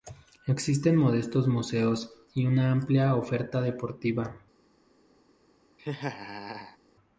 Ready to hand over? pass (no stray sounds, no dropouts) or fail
fail